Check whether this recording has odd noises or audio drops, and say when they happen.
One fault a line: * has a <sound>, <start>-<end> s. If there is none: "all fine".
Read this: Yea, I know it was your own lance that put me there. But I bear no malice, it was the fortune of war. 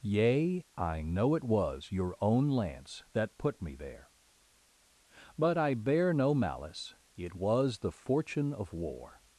all fine